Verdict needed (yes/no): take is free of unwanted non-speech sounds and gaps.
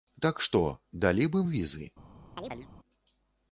no